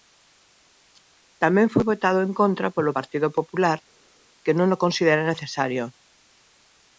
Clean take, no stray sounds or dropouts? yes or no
yes